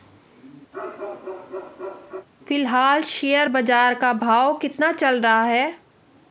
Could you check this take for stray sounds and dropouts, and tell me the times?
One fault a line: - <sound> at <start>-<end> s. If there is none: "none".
- bark at 0.7-2.3 s